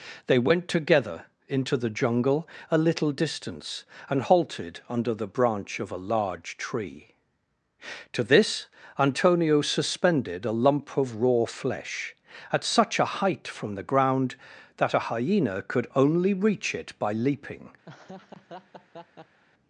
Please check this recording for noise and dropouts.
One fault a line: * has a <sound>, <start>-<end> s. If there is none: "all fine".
* has a laugh, 17.8-19.4 s